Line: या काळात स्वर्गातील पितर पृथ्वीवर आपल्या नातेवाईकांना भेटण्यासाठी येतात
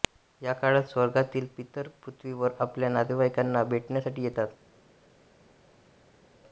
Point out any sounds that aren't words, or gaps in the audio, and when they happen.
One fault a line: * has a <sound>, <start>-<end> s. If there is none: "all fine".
all fine